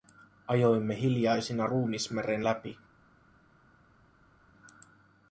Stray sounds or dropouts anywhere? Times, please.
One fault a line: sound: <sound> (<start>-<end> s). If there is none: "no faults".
no faults